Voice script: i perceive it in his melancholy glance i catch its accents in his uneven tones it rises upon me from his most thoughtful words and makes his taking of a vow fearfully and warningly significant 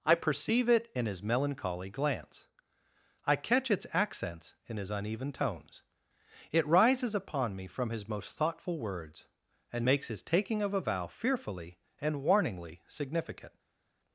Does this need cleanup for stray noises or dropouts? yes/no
no